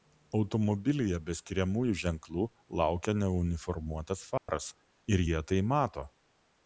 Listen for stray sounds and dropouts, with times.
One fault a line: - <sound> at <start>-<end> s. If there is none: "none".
- dropout at 4.4-4.5 s